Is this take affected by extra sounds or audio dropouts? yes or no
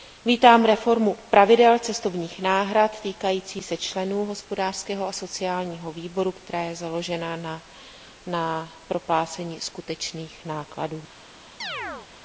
yes